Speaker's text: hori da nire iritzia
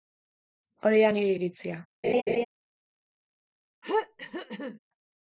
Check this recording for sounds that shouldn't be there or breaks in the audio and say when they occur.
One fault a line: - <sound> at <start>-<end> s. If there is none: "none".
- laugh at 2.0-2.4 s
- throat clearing at 3.8-4.8 s